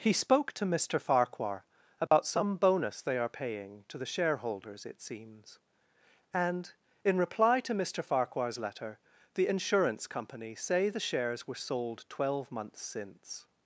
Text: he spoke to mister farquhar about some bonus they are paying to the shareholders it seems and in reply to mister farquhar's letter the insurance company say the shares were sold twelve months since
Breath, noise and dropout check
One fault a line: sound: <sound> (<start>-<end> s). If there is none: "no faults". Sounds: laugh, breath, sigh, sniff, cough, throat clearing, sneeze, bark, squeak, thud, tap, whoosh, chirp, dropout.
sound: dropout (2.1-2.1 s)